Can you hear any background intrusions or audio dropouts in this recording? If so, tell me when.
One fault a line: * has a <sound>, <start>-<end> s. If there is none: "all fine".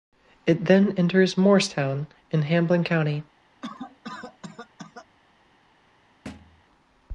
* has a cough, 3.6-5.1 s
* has a thud, 6.3-6.6 s